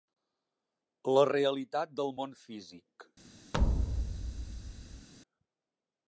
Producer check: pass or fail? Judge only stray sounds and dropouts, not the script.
fail